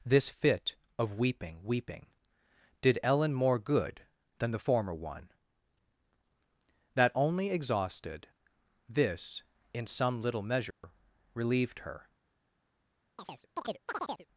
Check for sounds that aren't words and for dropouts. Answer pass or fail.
fail